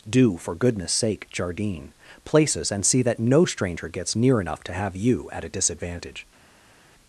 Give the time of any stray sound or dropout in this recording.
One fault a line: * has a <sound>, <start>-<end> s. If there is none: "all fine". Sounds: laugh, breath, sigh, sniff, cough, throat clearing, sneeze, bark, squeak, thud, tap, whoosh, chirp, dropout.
all fine